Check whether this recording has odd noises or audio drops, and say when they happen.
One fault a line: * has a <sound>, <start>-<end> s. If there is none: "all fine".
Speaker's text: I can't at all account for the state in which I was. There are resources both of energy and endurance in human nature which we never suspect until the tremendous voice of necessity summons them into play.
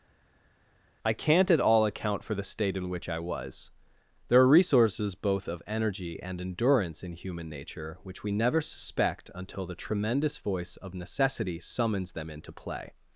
all fine